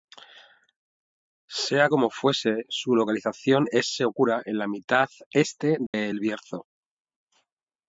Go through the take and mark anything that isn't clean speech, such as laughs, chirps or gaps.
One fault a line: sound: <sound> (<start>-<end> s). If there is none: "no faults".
sound: dropout (5.9-5.9 s)